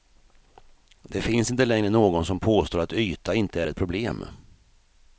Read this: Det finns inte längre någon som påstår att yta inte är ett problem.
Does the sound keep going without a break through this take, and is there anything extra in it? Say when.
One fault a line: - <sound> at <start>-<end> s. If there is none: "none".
none